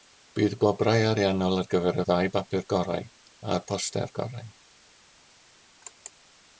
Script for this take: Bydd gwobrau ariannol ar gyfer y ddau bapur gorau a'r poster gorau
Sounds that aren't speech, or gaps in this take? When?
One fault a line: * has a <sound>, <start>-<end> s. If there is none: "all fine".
all fine